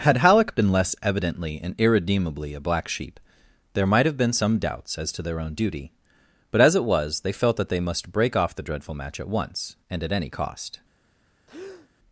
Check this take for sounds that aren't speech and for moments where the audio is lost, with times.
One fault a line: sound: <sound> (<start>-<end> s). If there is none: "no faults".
sound: breath (11.5-11.9 s)